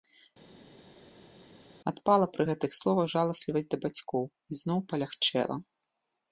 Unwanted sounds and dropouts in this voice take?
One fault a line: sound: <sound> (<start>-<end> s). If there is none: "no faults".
no faults